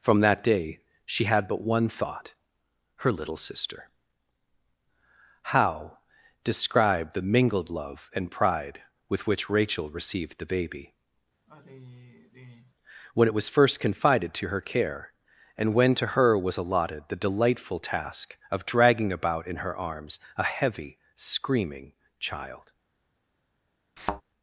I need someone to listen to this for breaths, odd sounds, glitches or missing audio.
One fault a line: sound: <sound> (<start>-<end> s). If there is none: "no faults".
sound: sigh (11.5-12.8 s)
sound: thud (24.0-24.2 s)